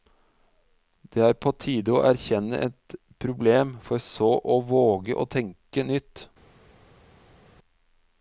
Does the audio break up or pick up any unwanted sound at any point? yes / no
no